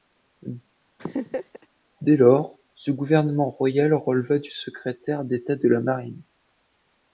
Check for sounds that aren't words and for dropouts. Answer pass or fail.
fail